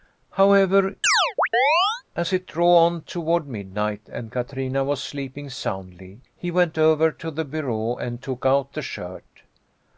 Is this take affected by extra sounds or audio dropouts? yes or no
yes